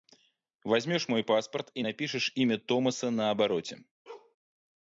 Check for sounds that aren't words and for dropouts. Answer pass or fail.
fail